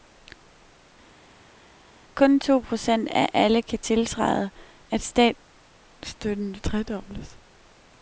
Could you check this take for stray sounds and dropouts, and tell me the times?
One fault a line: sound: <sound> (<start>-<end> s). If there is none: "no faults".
no faults